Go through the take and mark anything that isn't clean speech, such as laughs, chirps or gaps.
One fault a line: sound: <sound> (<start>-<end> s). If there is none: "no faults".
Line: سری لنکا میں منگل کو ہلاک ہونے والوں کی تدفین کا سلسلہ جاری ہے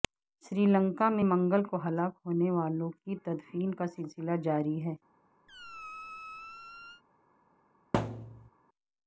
sound: squeak (5.5-7.0 s)
sound: thud (7.9-8.5 s)